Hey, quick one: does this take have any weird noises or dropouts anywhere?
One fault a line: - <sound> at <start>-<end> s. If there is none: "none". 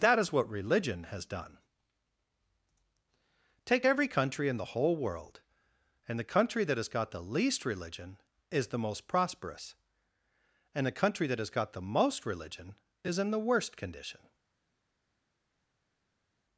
none